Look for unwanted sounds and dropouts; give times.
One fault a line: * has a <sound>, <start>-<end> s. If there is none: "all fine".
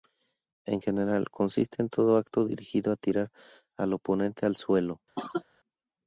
* has a cough, 5.2-5.4 s